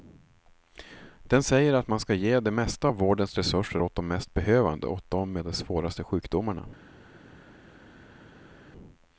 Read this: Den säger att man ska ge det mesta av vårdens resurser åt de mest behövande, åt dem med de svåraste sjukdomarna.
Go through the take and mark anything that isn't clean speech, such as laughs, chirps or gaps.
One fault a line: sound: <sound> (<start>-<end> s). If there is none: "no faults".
no faults